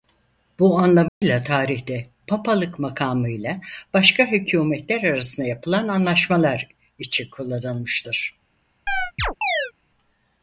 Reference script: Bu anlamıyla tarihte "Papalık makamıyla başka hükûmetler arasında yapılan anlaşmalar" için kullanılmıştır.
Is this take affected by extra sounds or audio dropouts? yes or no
yes